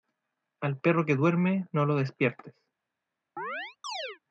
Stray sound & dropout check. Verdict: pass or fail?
fail